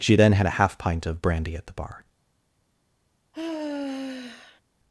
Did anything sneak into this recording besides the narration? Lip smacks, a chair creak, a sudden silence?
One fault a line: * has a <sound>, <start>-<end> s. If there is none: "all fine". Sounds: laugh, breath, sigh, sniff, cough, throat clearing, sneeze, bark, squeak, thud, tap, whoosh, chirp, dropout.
* has a sigh, 3.3-4.6 s